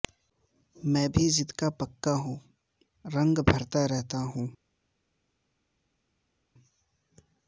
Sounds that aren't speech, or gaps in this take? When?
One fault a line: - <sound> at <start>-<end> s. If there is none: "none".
none